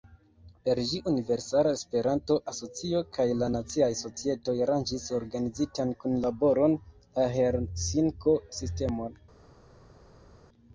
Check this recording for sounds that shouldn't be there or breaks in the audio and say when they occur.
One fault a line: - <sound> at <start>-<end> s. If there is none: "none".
none